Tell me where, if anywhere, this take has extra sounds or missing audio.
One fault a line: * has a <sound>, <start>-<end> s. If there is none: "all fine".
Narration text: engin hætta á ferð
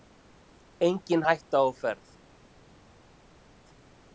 all fine